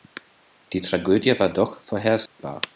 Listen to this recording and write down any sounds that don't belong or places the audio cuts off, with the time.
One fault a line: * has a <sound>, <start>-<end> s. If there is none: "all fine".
* has a dropout, 2.3-2.4 s